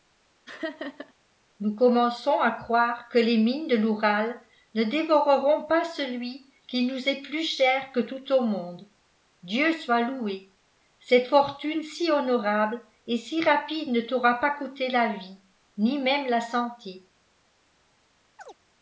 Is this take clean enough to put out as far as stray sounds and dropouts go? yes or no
no